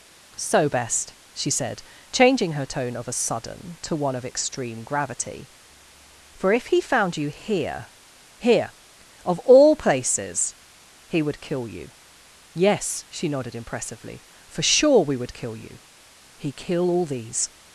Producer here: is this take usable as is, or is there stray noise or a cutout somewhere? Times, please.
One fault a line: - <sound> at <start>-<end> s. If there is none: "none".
none